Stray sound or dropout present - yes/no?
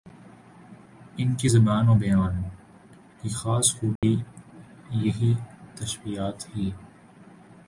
yes